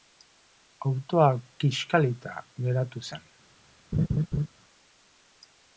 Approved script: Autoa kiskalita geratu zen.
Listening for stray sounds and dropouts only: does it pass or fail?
fail